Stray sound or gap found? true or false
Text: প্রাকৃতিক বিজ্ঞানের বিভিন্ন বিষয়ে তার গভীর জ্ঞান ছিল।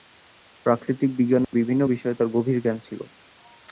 true